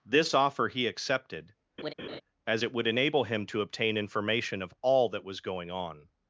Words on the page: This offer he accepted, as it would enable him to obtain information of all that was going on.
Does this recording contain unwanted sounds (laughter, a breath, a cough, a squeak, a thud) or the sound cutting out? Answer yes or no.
yes